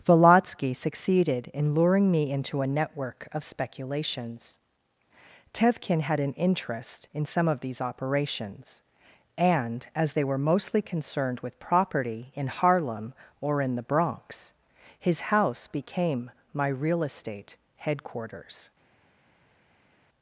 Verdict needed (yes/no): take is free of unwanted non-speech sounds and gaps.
yes